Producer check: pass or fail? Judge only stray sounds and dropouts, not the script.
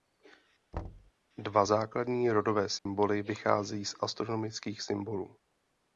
fail